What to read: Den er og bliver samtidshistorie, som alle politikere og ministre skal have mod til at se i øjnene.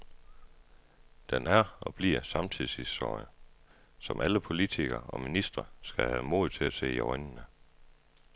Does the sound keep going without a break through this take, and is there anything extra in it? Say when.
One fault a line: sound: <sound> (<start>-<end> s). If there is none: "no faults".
no faults